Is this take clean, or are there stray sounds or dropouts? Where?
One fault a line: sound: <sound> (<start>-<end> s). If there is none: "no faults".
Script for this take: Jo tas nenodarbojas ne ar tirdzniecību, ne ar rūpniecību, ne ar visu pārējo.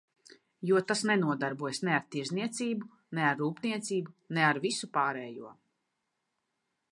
no faults